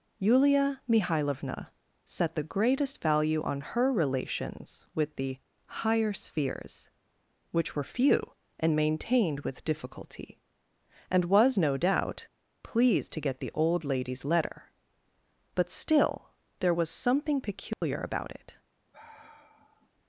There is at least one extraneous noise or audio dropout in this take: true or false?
true